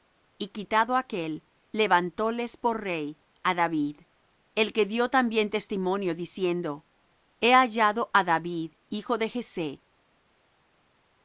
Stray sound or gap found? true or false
false